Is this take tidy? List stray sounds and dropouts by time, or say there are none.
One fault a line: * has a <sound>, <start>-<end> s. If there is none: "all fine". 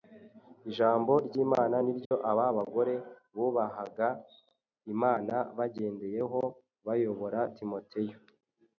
* has a dropout, 2.0-2.1 s